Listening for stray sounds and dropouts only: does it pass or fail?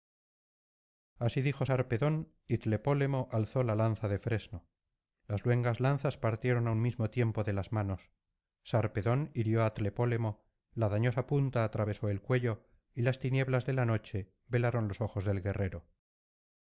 pass